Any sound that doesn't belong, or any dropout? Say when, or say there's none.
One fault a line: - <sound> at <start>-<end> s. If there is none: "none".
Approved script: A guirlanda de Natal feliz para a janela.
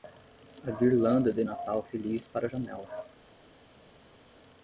none